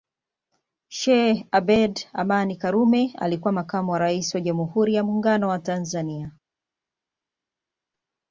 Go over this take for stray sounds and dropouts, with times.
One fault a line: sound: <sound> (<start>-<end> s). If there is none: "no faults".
no faults